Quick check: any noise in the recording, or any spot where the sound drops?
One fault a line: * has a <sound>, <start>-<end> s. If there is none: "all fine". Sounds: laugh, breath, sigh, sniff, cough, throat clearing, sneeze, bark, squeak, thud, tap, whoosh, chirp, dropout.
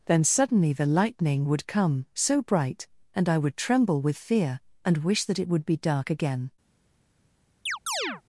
* has a chirp, 7.7-8.2 s